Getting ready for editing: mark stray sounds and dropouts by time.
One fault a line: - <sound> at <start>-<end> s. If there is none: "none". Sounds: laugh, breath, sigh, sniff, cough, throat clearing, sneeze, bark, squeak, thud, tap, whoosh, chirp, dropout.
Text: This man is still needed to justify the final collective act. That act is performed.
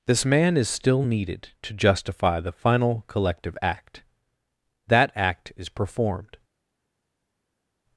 none